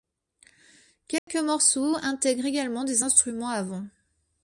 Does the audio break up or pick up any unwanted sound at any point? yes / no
yes